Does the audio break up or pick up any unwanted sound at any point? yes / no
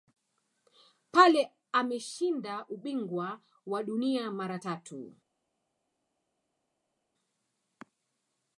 no